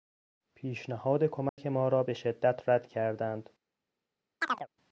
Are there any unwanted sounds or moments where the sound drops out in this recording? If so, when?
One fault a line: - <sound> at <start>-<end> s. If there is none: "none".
- dropout at 1.5-1.6 s
- chirp at 4.4-4.7 s